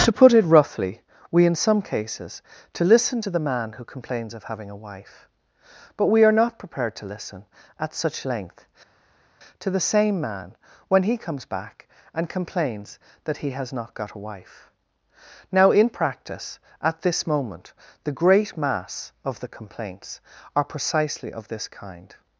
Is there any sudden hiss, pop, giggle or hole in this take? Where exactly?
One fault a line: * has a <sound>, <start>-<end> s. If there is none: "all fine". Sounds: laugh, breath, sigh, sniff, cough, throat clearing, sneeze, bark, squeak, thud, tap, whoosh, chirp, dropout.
all fine